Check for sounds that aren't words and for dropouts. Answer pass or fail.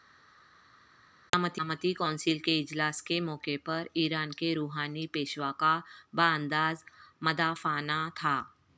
pass